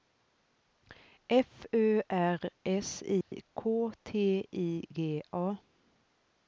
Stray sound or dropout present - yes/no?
yes